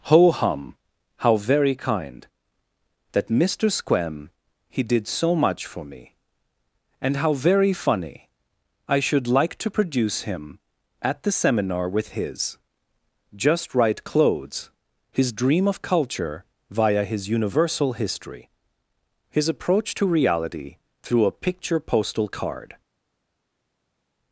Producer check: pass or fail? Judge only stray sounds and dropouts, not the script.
pass